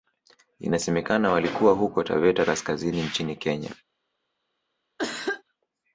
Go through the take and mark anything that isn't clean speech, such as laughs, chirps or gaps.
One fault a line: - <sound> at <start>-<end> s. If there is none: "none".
- cough at 5.0-5.4 s